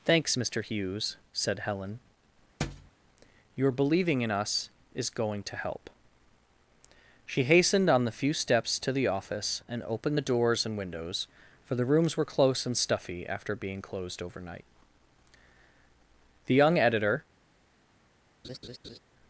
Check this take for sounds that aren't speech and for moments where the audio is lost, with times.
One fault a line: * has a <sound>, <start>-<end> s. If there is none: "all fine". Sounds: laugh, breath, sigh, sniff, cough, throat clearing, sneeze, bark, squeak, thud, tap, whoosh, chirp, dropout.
* has a thud, 2.6-2.9 s
* has a laugh, 18.4-19.0 s